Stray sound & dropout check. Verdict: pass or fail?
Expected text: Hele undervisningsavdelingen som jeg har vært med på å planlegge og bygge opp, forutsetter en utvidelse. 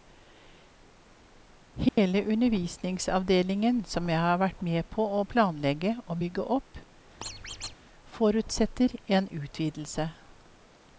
fail